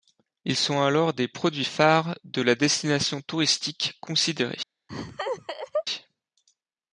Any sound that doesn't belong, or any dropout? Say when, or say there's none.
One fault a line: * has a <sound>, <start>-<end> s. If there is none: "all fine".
* has a laugh, 4.9-5.9 s